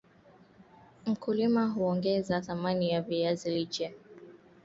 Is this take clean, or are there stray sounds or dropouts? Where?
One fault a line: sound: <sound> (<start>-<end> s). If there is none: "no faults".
no faults